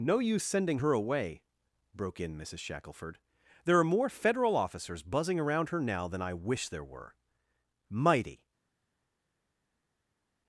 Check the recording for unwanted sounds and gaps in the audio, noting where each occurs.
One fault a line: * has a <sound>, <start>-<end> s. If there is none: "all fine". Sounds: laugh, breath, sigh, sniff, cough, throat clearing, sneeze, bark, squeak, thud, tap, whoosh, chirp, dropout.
all fine